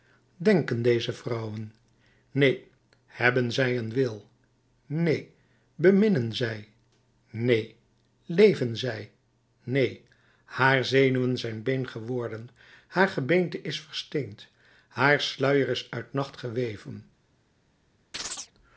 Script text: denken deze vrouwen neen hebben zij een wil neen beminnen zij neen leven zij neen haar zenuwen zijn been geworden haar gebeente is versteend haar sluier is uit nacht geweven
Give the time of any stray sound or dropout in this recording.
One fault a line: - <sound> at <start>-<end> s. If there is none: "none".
- chirp at 18.1-18.5 s